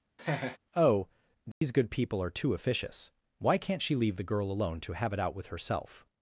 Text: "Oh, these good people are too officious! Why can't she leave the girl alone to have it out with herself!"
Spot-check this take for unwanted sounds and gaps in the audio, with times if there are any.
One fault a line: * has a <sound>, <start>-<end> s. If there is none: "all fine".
* has a laugh, 0.2-0.6 s
* has a dropout, 1.5-1.6 s